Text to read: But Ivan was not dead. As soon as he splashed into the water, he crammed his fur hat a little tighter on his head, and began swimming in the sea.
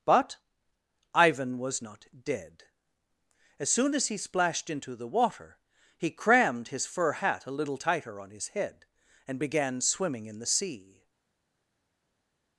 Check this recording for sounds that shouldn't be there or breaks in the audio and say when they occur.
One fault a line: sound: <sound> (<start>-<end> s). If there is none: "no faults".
no faults